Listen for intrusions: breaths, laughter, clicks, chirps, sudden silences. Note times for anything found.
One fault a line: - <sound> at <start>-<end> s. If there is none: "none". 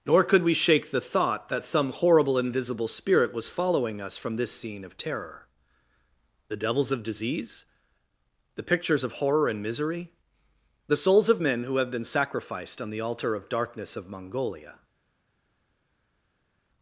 none